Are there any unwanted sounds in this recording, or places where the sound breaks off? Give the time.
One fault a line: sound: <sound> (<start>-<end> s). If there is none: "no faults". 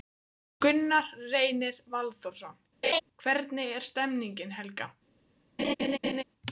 sound: laugh (2.8-3.0 s)
sound: laugh (5.6-6.2 s)